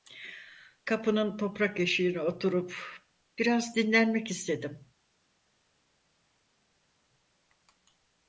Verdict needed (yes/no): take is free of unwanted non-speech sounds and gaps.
yes